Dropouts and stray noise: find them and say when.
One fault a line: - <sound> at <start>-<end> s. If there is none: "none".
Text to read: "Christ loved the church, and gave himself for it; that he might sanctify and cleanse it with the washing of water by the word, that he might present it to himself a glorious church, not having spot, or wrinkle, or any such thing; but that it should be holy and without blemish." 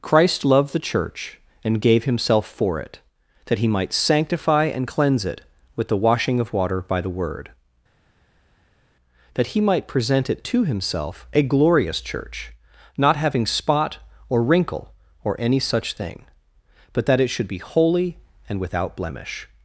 none